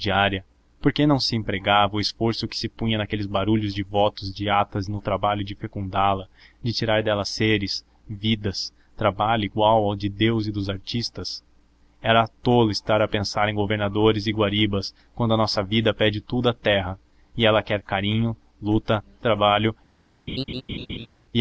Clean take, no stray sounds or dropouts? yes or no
no